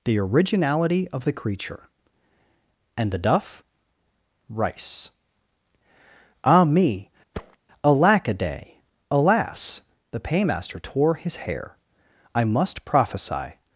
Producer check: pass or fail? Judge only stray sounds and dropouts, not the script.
fail